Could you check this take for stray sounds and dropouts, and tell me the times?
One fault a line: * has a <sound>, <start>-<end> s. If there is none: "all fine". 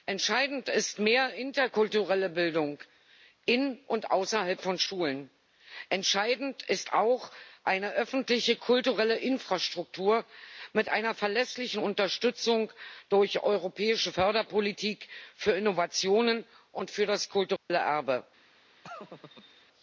* has a dropout, 17.6-17.7 s
* has a laugh, 18.8-19.7 s